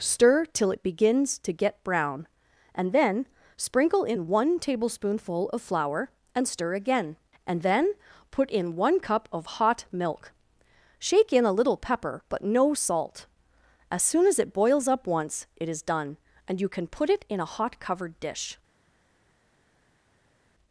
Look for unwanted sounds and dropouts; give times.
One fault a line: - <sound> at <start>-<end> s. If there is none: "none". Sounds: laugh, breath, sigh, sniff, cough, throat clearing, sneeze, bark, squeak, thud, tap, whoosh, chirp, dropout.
none